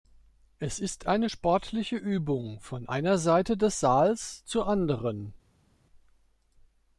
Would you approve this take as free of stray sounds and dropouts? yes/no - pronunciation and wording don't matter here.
yes